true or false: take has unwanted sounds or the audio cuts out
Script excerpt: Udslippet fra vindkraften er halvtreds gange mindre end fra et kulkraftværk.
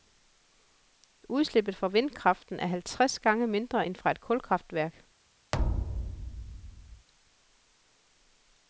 true